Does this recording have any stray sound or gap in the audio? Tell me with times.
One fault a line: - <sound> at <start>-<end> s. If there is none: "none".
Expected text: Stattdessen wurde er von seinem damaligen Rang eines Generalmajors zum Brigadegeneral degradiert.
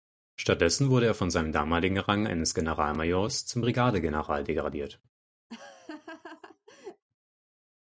- laugh at 5.5-7.0 s